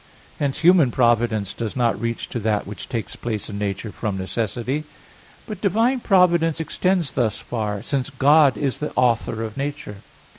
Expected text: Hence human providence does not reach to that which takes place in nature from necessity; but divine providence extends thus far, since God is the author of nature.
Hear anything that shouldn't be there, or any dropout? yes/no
no